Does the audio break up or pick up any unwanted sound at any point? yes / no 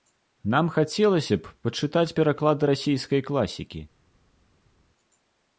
no